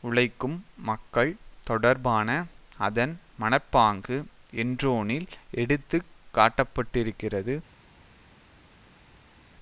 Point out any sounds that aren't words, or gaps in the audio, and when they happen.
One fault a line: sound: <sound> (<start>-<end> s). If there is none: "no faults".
no faults